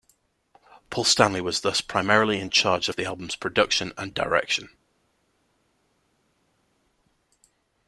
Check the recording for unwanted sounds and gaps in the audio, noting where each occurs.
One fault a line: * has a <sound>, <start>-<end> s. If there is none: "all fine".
all fine